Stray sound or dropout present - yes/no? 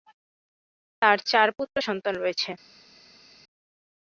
no